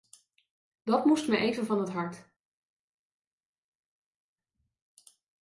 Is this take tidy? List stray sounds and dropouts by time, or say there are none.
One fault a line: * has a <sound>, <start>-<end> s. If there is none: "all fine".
all fine